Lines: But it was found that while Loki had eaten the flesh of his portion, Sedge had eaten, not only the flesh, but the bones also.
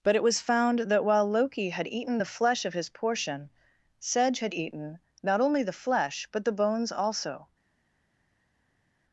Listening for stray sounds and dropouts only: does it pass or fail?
pass